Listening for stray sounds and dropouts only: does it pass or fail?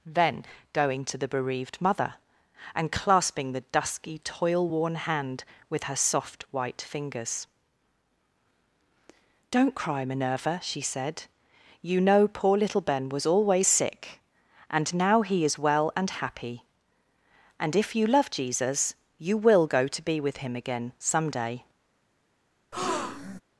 fail